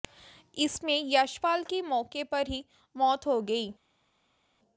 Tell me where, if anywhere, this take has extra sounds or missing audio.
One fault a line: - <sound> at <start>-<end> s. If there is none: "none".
none